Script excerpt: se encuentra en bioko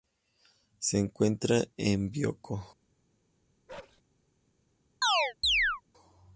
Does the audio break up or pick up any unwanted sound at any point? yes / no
yes